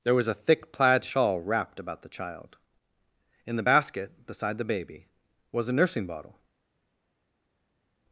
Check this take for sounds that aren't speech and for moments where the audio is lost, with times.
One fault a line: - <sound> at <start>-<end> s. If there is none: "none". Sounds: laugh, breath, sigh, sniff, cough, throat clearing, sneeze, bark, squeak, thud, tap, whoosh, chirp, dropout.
none